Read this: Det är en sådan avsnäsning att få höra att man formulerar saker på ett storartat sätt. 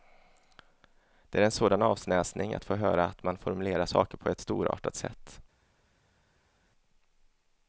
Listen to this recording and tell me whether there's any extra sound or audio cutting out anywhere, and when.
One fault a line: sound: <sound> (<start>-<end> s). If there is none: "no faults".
no faults